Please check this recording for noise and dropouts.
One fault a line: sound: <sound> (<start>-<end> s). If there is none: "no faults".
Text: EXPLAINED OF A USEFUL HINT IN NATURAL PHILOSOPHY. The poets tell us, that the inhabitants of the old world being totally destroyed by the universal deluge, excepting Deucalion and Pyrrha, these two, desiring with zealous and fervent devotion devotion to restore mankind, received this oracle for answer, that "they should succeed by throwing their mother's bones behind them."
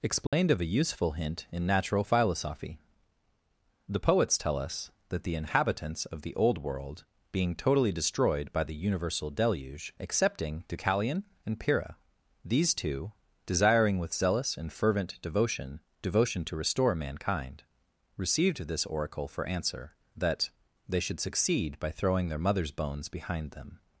sound: dropout (0.3-0.3 s)